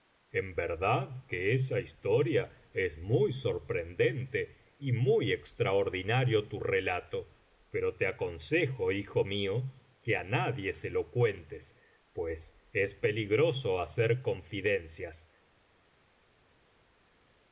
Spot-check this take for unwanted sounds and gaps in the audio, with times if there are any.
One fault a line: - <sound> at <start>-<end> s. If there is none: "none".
none